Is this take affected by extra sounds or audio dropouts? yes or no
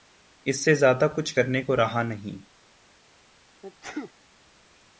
yes